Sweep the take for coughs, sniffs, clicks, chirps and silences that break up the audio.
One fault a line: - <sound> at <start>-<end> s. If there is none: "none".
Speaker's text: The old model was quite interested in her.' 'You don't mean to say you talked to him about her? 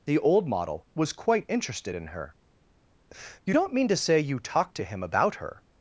none